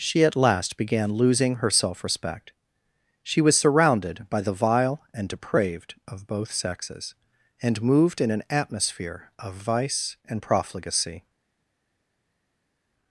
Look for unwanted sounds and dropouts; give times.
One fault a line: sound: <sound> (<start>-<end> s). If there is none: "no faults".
no faults